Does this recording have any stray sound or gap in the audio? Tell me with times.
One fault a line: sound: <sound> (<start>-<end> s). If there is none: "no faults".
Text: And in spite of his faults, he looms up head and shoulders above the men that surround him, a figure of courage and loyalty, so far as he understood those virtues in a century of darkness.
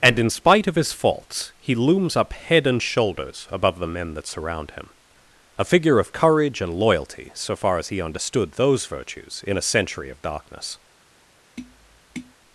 sound: tap (11.6-12.3 s)